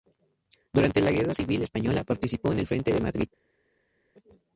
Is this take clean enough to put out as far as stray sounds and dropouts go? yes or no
yes